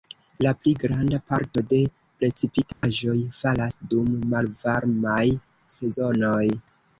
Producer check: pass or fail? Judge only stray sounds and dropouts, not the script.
fail